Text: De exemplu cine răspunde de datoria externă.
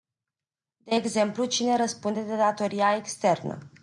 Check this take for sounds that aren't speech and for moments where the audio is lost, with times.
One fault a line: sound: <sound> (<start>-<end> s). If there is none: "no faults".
no faults